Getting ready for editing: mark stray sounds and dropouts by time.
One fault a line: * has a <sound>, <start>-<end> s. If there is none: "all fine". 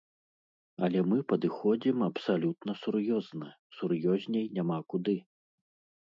all fine